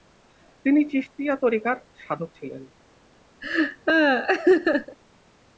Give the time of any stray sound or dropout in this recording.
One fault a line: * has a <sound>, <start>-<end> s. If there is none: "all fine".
* has a laugh, 3.4-5.0 s